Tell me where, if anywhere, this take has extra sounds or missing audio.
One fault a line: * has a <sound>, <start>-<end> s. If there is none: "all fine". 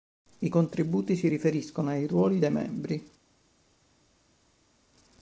all fine